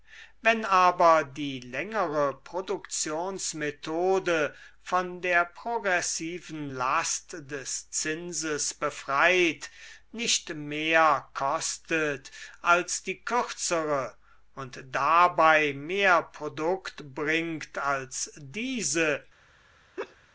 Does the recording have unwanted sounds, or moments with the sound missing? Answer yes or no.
yes